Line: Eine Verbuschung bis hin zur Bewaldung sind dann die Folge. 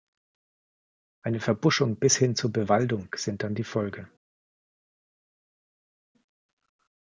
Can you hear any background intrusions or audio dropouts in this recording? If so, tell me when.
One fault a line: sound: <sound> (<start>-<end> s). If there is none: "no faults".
no faults